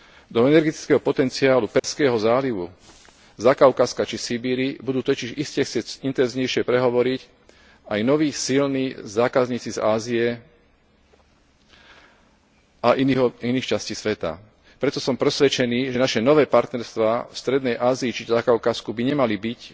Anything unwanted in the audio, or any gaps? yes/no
yes